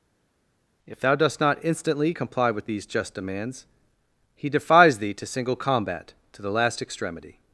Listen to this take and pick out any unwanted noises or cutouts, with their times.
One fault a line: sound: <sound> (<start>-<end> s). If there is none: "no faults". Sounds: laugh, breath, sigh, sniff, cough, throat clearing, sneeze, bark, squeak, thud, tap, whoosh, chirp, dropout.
no faults